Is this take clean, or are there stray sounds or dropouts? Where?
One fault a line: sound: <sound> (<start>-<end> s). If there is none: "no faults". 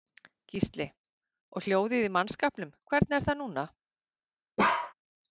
sound: bark (4.6-4.9 s)